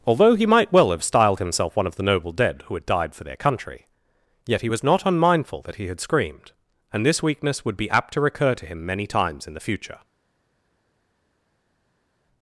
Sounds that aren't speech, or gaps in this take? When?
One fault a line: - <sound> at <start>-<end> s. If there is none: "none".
none